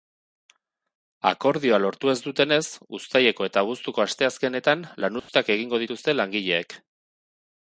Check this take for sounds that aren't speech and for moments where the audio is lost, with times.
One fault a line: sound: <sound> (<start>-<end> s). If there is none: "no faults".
sound: dropout (5.2-5.3 s)